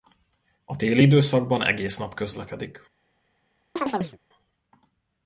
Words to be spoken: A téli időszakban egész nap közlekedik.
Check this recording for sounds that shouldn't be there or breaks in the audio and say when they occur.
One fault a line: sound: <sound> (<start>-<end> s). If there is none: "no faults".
sound: chirp (3.8-4.2 s)